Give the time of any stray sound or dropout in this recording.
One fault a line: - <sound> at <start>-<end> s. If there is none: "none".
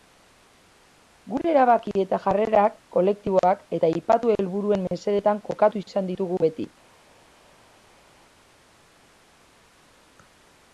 none